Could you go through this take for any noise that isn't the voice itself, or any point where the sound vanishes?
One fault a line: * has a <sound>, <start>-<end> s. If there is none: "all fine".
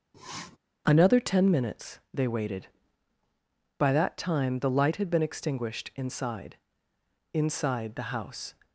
* has a sniff, 0.1-0.6 s